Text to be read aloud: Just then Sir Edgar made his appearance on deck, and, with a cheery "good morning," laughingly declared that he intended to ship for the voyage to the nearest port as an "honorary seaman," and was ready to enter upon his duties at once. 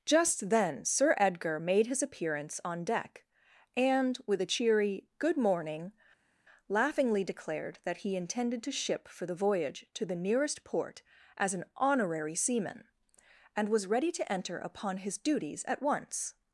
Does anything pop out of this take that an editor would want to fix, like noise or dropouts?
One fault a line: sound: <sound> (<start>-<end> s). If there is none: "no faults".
no faults